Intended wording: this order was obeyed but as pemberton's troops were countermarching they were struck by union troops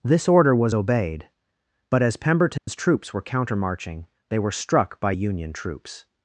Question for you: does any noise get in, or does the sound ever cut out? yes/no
yes